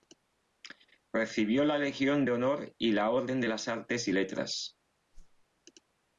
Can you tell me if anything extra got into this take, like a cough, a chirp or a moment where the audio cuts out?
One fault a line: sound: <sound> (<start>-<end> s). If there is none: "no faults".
sound: whoosh (5.1-5.5 s)